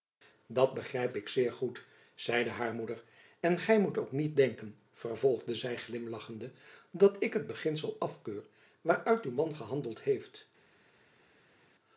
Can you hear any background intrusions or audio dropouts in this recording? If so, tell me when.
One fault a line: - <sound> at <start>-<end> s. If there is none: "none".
none